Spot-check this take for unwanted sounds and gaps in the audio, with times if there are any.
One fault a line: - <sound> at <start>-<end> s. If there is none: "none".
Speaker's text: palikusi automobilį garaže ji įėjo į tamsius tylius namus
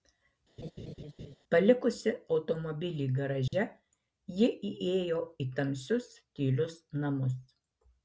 - laugh at 0.6-1.4 s
- dropout at 3.5-3.5 s